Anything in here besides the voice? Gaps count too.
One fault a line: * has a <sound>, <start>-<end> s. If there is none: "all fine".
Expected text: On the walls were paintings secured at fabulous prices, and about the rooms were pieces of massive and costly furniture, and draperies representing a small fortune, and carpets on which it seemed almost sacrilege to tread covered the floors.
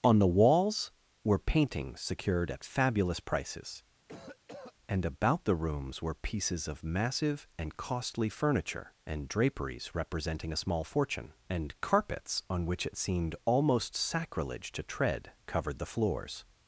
* has a cough, 4.1-4.7 s